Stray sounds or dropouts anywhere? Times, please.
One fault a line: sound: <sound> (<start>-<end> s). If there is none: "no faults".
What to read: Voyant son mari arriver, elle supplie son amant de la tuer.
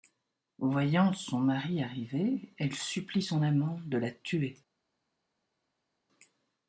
no faults